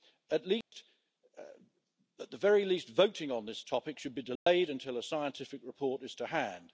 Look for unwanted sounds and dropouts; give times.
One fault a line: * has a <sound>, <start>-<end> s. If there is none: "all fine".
* has a dropout, 0.6-0.7 s
* has a dropout, 4.4-4.5 s